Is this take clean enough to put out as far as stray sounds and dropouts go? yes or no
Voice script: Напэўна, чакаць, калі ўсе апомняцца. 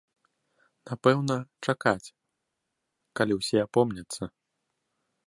yes